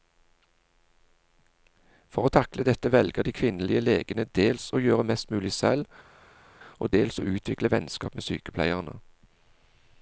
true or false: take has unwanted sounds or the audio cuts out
false